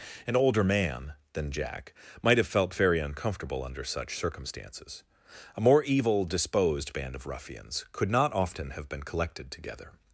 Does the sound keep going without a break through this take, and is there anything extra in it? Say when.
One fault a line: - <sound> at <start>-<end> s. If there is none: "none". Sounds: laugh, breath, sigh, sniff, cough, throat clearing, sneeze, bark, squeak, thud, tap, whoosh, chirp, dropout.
none